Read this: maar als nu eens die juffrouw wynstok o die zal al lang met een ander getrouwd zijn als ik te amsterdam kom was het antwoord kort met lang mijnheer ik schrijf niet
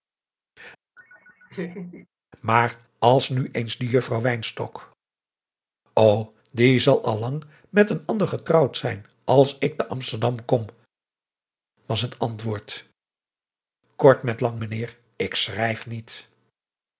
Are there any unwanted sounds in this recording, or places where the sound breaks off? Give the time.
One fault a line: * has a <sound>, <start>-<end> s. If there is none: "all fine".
* has a laugh, 1.0-2.1 s